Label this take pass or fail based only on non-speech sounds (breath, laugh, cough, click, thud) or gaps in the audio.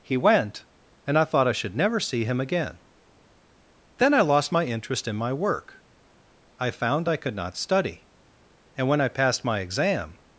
pass